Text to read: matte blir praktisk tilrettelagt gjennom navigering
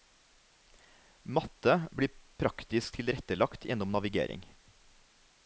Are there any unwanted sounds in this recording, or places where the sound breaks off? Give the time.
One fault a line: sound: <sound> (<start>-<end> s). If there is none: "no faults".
no faults